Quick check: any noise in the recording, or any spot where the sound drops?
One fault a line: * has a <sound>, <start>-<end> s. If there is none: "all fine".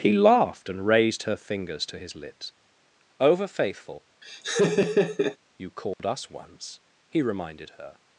* has a laugh, 4.2-5.4 s
* has a dropout, 5.9-6.0 s